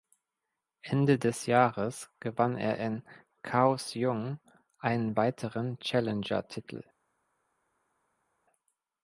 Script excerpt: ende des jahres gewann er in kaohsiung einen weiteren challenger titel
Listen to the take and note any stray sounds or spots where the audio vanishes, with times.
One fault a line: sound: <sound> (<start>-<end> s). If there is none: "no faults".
no faults